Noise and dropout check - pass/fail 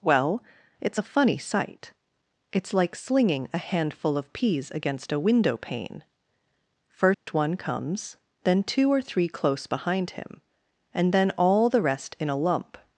fail